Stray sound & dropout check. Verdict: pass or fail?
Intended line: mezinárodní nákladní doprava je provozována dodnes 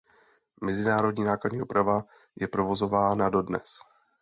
pass